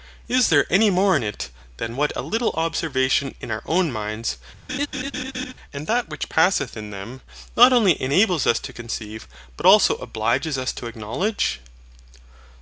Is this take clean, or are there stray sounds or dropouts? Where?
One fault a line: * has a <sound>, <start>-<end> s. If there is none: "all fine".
* has a laugh, 4.7-5.5 s